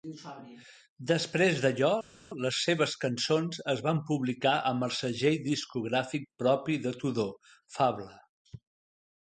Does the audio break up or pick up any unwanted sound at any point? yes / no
no